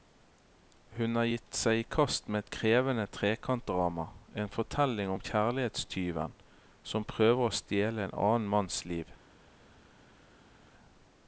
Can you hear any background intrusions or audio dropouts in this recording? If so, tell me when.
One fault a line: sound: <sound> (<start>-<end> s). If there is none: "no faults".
no faults